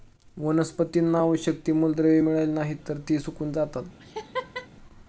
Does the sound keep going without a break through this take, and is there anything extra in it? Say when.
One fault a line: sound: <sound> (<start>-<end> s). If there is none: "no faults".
sound: laugh (4.0-4.7 s)